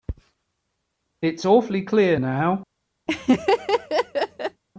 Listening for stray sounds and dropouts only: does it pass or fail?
fail